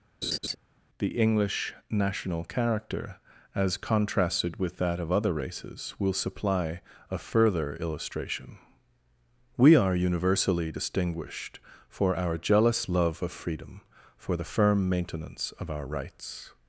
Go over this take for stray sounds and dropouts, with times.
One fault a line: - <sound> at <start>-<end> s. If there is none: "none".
- laugh at 0.2-0.6 s